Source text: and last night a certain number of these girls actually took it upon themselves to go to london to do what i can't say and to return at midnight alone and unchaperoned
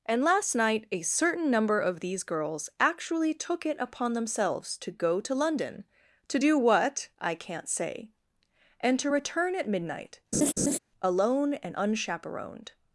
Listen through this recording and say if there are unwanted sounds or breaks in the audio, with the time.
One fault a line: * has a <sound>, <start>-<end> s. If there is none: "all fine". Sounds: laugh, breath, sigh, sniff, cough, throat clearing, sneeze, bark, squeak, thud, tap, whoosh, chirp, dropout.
* has a laugh, 10.3-10.8 s